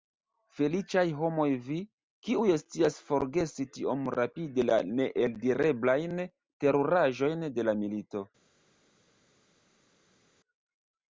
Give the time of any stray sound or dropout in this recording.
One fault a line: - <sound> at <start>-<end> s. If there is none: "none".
none